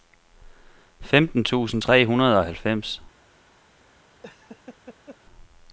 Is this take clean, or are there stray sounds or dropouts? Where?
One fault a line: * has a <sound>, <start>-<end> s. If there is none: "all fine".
* has a laugh, 4.2-5.2 s